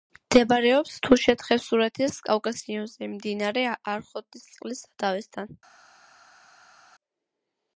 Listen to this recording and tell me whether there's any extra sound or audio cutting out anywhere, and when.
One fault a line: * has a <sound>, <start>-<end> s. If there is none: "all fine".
all fine